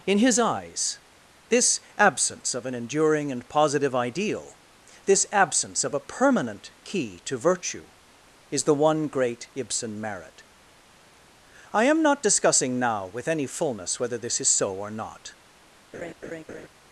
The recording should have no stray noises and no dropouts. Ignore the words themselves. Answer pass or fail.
fail